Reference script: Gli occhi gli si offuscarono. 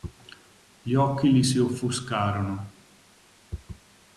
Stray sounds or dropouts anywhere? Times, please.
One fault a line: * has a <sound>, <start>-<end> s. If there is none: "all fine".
all fine